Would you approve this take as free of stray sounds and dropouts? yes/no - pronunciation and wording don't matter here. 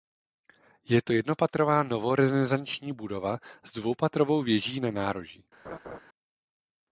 no